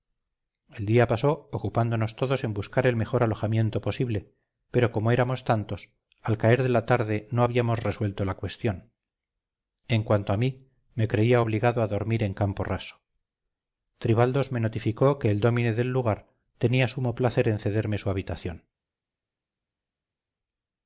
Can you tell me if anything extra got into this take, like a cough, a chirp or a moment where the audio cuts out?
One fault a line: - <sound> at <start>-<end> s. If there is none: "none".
none